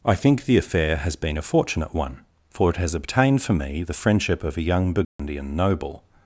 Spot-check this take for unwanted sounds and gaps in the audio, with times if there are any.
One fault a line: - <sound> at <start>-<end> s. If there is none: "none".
- dropout at 5.0-5.2 s